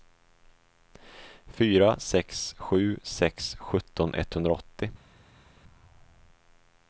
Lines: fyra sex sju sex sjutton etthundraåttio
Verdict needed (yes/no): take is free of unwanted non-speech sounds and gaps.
yes